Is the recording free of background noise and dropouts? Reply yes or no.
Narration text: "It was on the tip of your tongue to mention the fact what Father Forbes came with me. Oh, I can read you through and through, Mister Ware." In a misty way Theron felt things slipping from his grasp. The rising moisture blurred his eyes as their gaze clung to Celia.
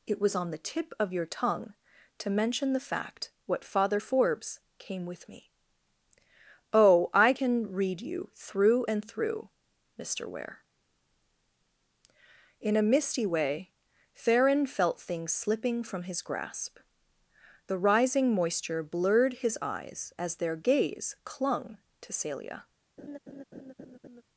no